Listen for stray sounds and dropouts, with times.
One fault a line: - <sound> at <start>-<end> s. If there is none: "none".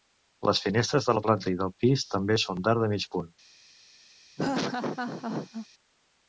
- laugh at 4.4-5.7 s